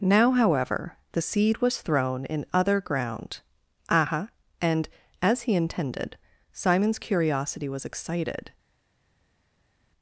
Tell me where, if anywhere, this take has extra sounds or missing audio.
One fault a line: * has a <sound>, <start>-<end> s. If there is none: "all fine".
all fine